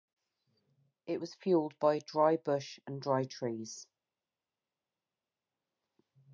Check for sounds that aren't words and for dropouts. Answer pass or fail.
pass